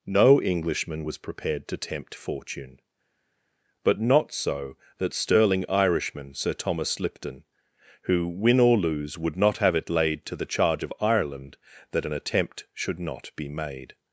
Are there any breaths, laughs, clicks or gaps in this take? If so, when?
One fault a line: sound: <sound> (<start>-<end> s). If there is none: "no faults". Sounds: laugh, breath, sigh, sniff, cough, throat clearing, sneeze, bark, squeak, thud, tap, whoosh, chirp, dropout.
no faults